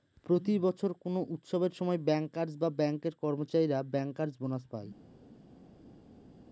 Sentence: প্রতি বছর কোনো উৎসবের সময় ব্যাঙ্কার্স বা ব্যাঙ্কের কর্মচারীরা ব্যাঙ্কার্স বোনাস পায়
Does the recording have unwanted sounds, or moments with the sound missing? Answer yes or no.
no